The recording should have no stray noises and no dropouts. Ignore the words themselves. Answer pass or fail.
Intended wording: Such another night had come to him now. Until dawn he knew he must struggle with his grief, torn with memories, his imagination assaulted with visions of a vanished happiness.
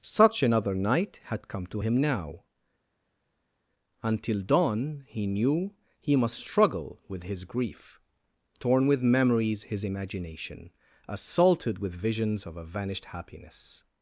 pass